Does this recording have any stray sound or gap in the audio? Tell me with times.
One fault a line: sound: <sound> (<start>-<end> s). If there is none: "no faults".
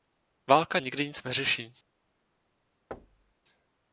sound: thud (2.9-3.3 s)